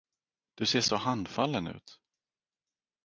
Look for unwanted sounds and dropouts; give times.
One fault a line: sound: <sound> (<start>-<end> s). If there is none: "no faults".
no faults